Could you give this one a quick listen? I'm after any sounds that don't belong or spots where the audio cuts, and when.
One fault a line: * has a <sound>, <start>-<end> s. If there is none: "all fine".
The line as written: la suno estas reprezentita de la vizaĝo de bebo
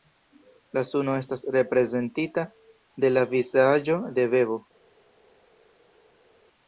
all fine